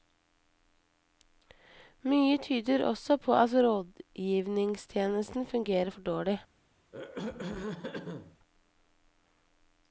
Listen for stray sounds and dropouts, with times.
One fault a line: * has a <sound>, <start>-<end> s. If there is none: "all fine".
* has a throat clearing, 6.9-8.4 s